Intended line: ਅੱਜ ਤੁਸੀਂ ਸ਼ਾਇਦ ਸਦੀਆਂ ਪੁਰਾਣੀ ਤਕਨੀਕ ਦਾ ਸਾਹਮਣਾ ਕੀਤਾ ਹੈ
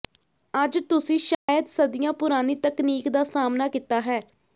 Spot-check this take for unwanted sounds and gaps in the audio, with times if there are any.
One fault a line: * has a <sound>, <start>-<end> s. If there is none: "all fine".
* has a dropout, 1.3-1.5 s